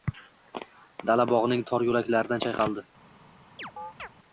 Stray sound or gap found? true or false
true